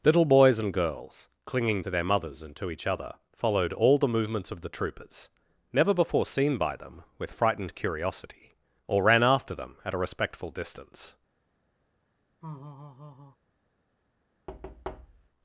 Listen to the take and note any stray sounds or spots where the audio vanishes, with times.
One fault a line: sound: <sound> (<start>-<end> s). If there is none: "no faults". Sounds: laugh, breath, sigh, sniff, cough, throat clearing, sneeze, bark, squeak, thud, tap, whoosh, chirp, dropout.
sound: laugh (12.4-13.4 s)
sound: thud (14.5-15.3 s)